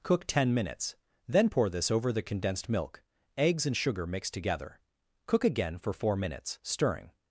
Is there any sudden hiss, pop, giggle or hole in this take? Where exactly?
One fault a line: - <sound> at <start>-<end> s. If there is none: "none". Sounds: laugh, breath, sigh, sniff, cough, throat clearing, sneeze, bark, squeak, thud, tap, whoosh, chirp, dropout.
none